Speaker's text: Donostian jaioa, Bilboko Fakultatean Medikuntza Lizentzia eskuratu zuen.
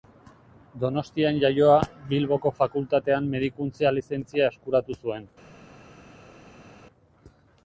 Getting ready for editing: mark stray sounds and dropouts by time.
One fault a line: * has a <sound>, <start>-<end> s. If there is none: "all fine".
all fine